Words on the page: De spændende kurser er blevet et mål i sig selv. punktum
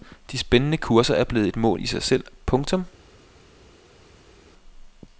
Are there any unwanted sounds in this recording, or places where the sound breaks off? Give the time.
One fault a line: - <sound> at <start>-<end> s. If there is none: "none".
none